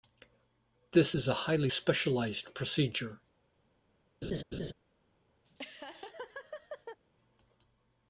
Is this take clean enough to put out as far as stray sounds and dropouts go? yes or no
no